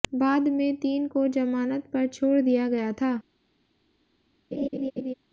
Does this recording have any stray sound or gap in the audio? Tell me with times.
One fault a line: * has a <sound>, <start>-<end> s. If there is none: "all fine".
* has a laugh, 4.5-5.1 s